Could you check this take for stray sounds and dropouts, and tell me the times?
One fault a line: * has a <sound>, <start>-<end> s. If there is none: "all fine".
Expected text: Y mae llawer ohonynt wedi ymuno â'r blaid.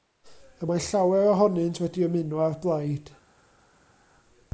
all fine